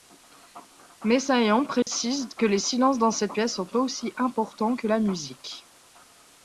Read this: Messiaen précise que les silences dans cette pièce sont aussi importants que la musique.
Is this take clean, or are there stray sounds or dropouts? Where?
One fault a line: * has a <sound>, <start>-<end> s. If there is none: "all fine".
* has a dropout, 1.8-1.9 s